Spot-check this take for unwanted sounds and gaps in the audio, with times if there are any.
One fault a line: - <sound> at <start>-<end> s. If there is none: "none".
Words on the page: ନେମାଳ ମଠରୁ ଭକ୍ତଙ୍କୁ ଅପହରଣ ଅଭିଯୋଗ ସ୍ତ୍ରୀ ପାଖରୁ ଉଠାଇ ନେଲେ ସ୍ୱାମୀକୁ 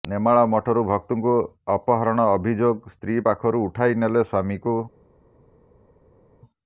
none